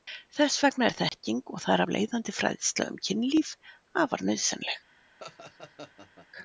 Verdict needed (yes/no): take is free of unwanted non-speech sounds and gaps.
no